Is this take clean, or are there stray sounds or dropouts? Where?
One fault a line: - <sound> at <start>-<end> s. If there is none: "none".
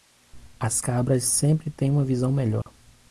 - dropout at 2.6-2.7 s